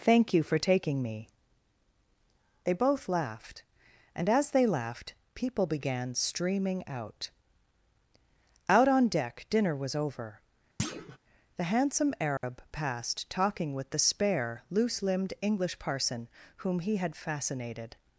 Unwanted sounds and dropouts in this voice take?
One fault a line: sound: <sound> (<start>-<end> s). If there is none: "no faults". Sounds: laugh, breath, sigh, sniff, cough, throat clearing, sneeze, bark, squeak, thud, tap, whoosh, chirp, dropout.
sound: thud (10.8-11.2 s)
sound: dropout (12.4-12.4 s)